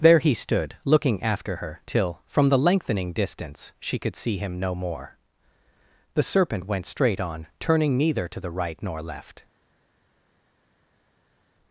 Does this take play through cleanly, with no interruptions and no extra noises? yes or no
yes